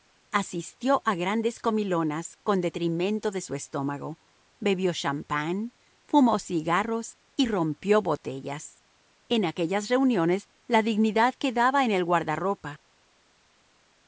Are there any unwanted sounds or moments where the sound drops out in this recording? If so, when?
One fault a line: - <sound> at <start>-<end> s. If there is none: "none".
none